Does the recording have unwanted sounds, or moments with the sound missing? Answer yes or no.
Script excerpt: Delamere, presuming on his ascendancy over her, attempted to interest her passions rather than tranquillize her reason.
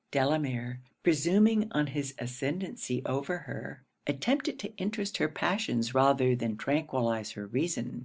no